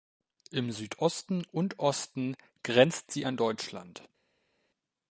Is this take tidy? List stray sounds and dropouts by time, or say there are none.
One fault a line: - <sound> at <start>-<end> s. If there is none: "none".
none